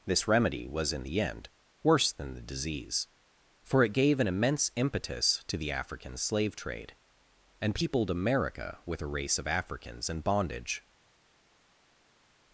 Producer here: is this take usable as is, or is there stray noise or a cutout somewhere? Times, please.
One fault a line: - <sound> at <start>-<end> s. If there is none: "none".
none